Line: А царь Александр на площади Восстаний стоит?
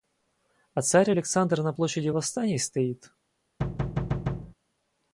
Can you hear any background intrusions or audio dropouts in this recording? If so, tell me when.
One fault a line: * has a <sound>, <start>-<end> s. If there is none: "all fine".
* has a thud, 3.6-4.5 s